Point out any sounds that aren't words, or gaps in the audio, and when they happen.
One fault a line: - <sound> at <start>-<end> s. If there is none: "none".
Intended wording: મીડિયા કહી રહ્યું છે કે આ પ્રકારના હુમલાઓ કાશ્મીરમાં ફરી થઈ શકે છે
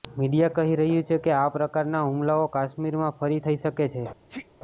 - sneeze at 4.3-4.5 s